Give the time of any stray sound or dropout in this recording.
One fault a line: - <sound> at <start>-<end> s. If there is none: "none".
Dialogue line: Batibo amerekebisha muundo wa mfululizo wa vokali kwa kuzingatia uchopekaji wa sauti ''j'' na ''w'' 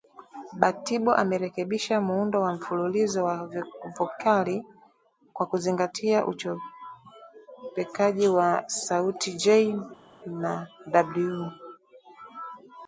none